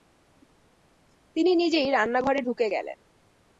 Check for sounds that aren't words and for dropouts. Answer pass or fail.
pass